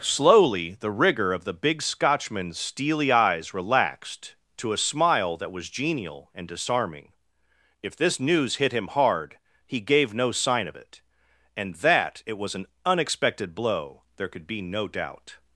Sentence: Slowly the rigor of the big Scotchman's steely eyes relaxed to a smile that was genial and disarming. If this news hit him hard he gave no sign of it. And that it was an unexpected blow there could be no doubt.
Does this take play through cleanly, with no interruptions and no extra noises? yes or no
yes